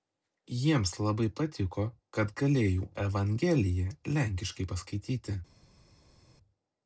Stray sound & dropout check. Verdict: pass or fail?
pass